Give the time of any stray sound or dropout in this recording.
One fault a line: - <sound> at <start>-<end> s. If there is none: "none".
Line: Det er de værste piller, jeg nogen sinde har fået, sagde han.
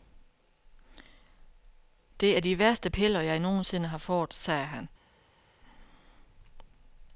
none